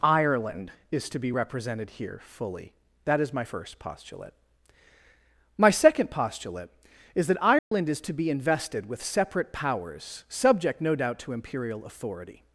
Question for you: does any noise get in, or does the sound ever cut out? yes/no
yes